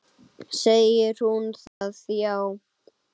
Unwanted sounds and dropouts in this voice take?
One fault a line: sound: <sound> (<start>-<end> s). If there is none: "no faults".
sound: dropout (1.7-1.8 s)